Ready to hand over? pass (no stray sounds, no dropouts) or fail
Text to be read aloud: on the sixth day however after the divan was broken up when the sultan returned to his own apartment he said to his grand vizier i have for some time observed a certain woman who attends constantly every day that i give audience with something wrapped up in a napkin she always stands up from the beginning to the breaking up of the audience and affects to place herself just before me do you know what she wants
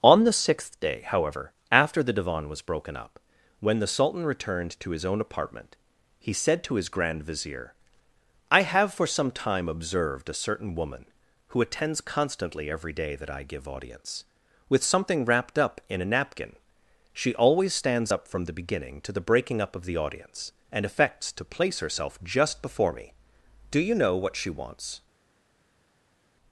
pass